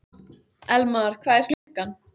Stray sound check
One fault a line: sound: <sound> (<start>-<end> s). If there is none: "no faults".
sound: dropout (1.5-1.7 s)